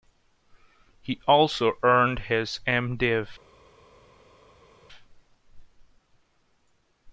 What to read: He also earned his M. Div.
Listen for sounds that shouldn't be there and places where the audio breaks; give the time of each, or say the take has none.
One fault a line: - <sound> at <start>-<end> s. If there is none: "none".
none